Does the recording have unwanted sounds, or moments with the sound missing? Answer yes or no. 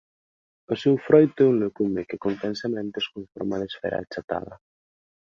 no